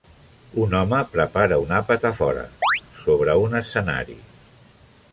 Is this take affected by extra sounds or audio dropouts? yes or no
yes